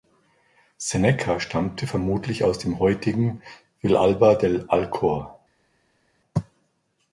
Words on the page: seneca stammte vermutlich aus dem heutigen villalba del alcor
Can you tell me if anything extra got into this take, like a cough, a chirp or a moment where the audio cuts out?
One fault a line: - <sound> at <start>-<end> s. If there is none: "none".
none